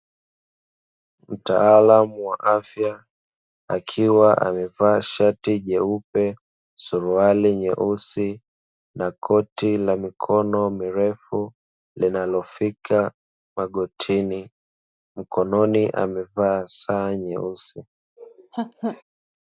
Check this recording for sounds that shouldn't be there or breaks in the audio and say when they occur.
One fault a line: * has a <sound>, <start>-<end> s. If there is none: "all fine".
* has a laugh, 18.2-19.0 s